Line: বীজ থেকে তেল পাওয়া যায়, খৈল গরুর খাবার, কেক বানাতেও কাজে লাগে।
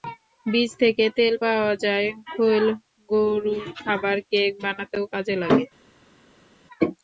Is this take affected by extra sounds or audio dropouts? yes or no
no